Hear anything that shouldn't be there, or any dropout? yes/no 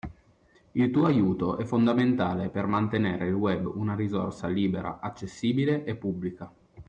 no